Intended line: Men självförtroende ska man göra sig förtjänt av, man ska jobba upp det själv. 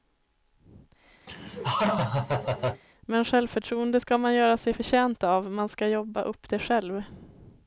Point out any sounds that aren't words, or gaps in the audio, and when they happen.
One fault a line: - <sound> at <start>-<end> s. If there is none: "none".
- laugh at 1.3-2.8 s